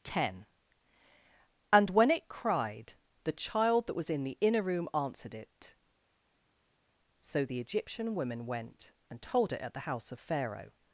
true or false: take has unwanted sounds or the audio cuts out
false